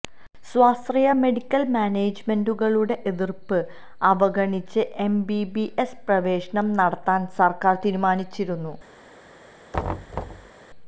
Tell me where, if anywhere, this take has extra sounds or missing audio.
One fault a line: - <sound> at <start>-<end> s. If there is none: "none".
- thud at 9.7-10.5 s